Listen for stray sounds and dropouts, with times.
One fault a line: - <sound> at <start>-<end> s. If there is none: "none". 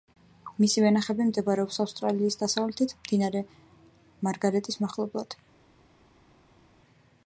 none